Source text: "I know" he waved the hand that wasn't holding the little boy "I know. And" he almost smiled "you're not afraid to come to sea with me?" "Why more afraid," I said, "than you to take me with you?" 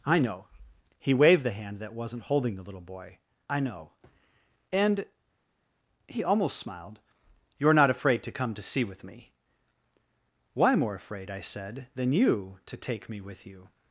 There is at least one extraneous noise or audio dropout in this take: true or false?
false